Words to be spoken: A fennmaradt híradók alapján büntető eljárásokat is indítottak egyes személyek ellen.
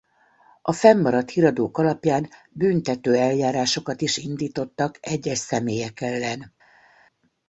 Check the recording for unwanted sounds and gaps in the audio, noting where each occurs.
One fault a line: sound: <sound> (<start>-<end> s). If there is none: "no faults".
no faults